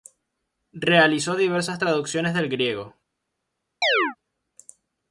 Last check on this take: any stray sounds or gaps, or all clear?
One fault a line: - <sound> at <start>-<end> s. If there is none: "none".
- chirp at 3.8-4.2 s